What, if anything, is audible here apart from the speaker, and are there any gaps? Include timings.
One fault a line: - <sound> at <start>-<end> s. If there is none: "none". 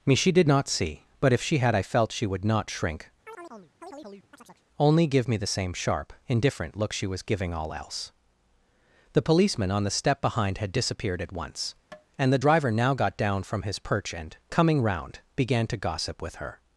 - chirp at 3.3-4.6 s
- tap at 11.9-12.1 s